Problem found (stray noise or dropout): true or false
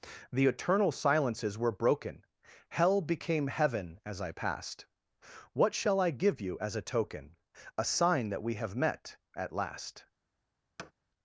true